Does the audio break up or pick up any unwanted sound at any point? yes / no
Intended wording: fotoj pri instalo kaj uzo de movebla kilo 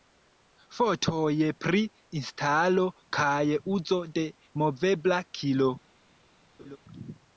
yes